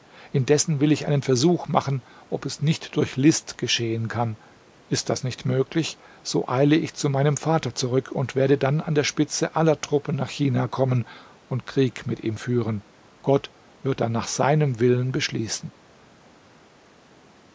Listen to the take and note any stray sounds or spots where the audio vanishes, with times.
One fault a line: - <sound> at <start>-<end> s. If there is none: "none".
none